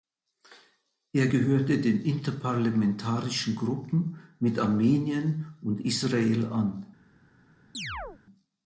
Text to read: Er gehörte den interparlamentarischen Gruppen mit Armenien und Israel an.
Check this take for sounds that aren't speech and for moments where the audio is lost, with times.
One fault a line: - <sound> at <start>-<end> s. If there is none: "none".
- chirp at 7.7-8.2 s